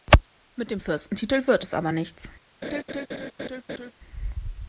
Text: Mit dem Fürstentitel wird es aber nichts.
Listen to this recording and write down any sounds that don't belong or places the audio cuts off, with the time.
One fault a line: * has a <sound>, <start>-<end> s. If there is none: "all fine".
* has a laugh, 2.6-3.9 s